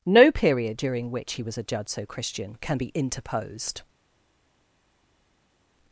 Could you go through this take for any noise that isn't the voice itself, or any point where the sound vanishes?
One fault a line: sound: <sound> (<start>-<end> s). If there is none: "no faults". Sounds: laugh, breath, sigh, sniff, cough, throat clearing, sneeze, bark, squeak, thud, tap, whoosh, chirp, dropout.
no faults